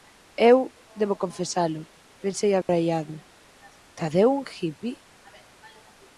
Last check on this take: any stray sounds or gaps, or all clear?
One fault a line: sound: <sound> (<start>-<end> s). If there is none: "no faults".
sound: dropout (2.6-2.7 s)